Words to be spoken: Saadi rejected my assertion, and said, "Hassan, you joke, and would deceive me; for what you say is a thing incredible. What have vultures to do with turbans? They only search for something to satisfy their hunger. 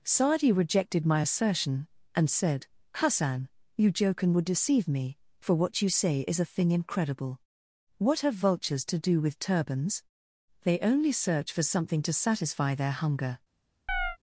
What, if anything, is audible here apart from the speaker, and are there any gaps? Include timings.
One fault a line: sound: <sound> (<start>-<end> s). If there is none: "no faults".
sound: chirp (13.9-14.2 s)